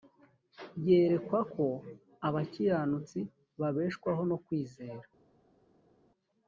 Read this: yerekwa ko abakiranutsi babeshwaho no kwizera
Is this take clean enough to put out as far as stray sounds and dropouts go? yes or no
yes